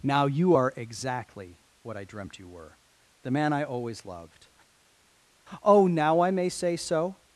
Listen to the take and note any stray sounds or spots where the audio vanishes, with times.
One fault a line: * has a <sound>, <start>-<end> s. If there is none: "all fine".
all fine